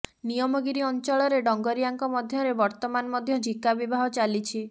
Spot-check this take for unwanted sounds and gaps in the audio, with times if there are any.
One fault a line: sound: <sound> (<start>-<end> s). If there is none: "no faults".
no faults